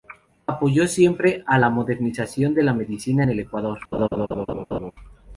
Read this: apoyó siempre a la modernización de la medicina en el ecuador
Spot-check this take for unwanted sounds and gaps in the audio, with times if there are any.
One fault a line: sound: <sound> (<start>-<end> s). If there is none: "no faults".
sound: laugh (3.9-4.9 s)